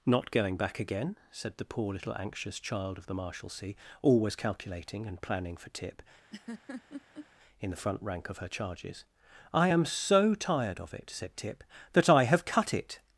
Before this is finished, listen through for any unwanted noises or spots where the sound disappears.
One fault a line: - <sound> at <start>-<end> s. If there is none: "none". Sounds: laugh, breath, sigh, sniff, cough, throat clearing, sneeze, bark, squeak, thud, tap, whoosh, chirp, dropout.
- laugh at 6.3-7.3 s